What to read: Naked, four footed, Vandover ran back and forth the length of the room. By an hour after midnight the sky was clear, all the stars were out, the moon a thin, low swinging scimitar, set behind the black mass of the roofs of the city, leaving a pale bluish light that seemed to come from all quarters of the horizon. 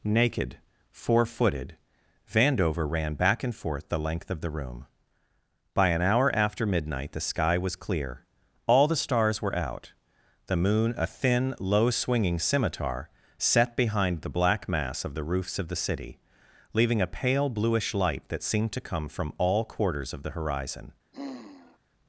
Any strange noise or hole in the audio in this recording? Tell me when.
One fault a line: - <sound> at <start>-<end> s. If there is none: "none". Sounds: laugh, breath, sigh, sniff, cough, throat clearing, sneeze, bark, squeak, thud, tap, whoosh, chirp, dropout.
- sigh at 21.1-21.8 s